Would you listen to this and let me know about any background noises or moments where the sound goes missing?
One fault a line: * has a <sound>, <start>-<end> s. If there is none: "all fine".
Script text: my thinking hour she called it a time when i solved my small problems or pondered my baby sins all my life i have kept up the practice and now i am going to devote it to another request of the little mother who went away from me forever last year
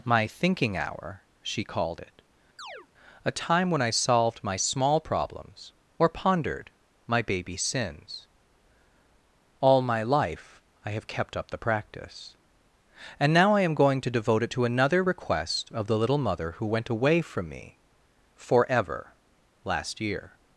* has a chirp, 2.6-2.9 s